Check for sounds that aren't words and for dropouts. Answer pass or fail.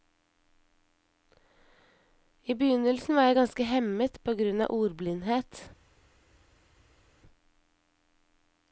pass